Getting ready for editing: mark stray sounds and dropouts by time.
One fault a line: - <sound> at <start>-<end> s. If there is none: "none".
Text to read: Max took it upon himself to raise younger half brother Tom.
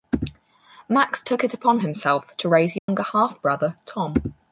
- dropout at 2.8-2.9 s